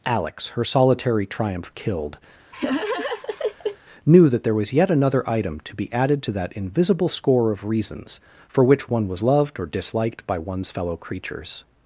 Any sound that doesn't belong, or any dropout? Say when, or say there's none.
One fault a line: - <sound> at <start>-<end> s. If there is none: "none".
- laugh at 2.5-3.8 s